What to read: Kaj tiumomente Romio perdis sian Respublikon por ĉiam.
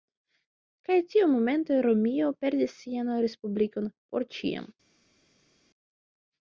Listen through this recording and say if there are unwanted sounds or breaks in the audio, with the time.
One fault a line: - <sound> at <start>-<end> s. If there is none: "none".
none